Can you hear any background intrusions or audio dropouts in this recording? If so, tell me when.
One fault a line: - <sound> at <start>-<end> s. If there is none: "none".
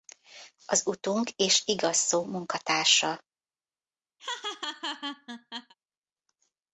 - laugh at 4.2-5.7 s